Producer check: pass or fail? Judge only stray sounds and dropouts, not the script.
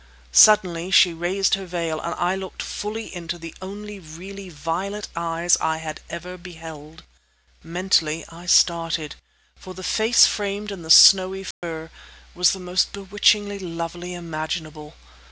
fail